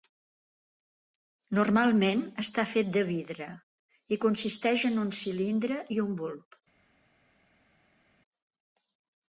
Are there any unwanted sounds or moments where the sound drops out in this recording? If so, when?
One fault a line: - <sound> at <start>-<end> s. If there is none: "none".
none